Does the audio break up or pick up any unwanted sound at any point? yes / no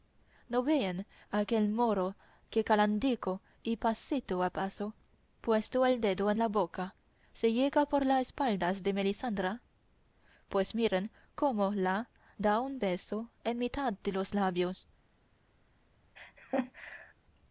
yes